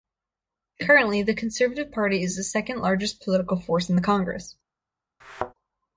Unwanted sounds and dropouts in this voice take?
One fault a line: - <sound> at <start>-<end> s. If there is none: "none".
- thud at 5.2-5.5 s